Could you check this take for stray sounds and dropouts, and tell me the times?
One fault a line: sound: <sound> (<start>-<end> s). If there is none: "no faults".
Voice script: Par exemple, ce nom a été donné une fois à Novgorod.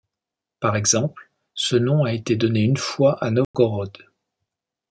sound: dropout (3.4-3.5 s)